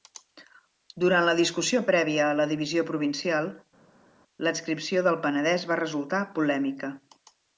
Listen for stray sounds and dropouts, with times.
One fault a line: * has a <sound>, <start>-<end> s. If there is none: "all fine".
all fine